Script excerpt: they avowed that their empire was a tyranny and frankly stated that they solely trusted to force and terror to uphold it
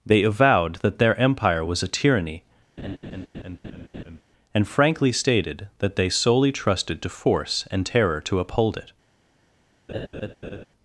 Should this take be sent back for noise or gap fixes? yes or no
yes